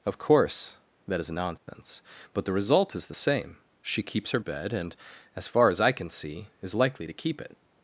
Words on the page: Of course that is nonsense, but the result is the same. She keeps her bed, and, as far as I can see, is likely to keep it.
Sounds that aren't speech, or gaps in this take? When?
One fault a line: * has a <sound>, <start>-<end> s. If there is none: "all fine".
* has a dropout, 1.6-1.7 s